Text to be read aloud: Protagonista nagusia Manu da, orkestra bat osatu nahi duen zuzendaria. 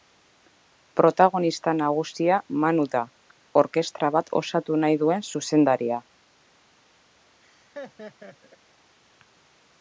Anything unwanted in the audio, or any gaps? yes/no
yes